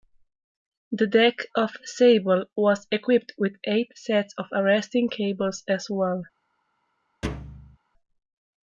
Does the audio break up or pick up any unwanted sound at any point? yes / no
yes